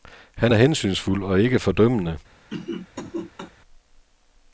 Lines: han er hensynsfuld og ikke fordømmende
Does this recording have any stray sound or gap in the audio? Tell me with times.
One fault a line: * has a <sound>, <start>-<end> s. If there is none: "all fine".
* has a cough, 2.5-3.5 s